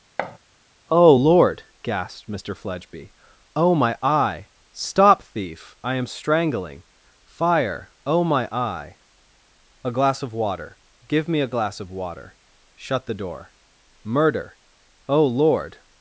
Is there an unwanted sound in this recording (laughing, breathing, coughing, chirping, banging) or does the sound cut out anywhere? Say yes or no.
yes